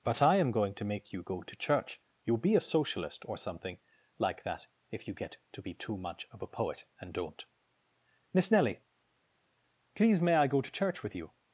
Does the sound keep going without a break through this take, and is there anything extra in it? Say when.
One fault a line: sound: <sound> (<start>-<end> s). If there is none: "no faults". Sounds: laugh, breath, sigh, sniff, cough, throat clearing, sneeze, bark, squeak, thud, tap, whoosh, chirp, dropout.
no faults